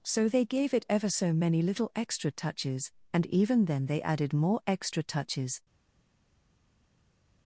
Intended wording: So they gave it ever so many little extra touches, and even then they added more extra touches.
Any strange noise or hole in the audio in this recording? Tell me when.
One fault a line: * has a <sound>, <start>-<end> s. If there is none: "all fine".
all fine